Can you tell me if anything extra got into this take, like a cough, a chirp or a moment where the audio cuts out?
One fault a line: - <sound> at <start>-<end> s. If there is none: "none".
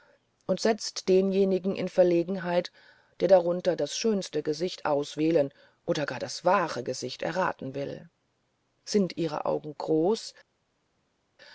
none